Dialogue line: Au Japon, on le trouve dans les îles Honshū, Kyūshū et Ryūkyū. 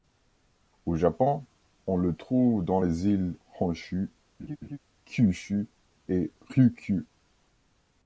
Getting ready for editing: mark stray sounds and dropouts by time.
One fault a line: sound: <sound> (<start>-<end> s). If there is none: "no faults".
sound: laugh (4.4-4.8 s)